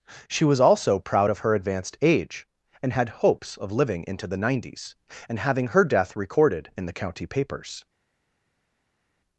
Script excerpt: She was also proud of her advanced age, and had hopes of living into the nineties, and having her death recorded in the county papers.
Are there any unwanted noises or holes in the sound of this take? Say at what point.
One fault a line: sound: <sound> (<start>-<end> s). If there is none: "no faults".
no faults